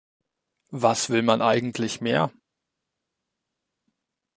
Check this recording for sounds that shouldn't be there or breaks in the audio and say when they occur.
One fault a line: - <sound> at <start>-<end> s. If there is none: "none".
none